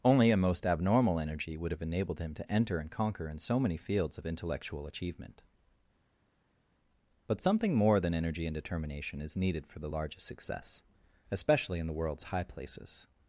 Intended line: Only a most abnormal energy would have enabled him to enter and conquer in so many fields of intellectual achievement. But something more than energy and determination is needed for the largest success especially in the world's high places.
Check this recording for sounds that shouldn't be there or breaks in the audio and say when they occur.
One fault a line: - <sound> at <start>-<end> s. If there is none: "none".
none